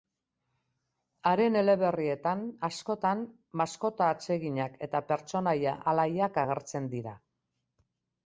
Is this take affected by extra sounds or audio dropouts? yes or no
no